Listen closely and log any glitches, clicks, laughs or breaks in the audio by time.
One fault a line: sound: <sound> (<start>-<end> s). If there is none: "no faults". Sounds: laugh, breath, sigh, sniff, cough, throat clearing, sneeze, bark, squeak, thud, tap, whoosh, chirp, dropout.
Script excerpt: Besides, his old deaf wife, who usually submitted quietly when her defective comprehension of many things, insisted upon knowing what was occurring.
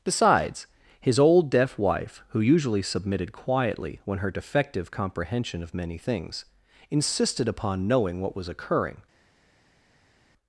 no faults